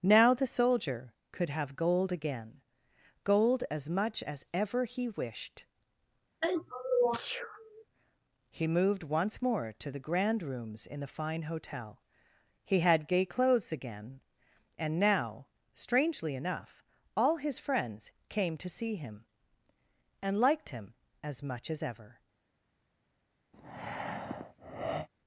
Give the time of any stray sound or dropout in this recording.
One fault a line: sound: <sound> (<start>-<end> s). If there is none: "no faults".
sound: sneeze (6.4-7.8 s)
sound: breath (23.5-25.1 s)